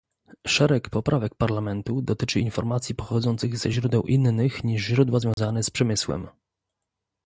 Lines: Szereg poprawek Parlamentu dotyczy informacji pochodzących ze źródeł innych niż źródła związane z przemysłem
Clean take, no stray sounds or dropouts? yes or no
no